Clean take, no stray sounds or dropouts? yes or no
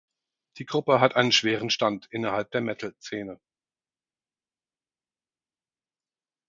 yes